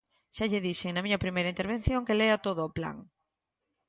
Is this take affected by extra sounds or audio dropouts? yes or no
no